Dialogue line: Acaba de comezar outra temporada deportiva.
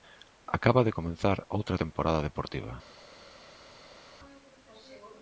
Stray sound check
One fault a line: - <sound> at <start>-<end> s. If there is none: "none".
none